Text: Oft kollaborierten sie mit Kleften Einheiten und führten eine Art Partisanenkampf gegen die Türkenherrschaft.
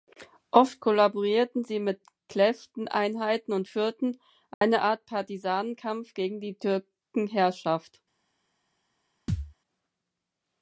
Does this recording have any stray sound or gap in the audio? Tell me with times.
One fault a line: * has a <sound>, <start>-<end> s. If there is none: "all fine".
* has a dropout, 4.5-4.6 s
* has a thud, 9.3-9.5 s